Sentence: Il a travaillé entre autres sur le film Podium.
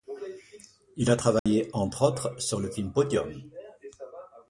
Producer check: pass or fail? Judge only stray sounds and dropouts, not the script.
fail